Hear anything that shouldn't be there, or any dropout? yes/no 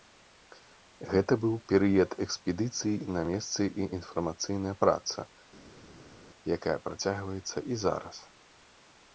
no